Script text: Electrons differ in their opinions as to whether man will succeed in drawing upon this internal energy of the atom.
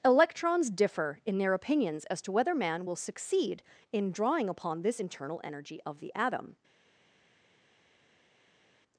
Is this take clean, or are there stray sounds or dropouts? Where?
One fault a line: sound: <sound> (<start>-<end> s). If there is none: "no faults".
no faults